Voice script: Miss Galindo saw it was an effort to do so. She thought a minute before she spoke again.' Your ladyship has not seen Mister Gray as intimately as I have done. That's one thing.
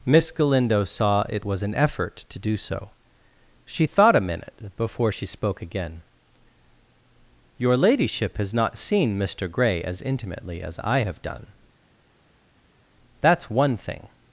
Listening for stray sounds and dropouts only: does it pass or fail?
pass